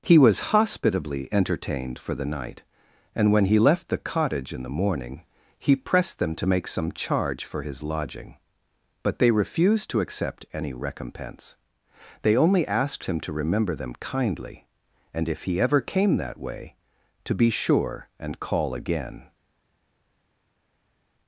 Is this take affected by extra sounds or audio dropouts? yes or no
no